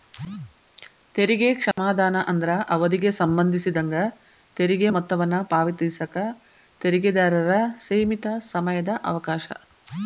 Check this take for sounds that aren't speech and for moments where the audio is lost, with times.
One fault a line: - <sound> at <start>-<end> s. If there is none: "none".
- dropout at 1.7-1.8 s